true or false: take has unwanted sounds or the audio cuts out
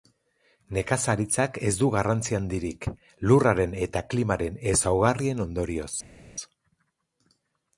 false